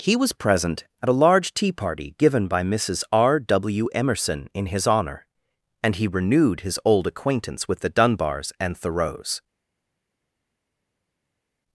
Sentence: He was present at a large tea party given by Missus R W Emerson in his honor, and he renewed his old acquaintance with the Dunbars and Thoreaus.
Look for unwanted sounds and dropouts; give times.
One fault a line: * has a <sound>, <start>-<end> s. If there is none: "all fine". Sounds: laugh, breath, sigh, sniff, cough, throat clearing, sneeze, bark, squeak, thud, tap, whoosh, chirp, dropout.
all fine